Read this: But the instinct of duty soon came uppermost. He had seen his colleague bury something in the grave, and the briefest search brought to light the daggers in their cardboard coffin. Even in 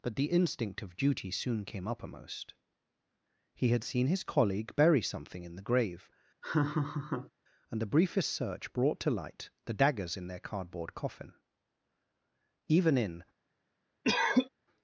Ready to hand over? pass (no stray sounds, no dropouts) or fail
fail